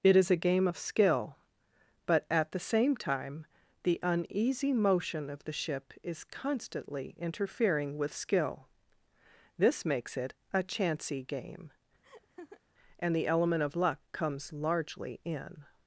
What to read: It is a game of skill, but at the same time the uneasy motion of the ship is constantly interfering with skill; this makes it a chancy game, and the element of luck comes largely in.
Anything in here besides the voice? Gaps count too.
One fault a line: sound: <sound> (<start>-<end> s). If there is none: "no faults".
sound: laugh (12.0-12.6 s)